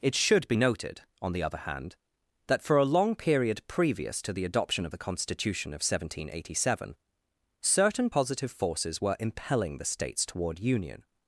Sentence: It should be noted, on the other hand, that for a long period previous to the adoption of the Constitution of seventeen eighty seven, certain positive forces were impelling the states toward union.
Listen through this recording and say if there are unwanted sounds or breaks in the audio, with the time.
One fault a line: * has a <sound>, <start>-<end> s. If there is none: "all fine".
all fine